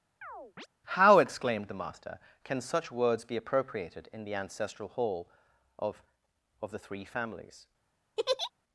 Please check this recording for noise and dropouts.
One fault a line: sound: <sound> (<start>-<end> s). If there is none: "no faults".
sound: chirp (0.2-0.7 s)
sound: laugh (8.2-8.5 s)